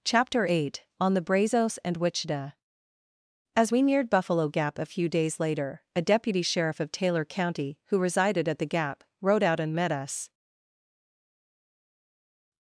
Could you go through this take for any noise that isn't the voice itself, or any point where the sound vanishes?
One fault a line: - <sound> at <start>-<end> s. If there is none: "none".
none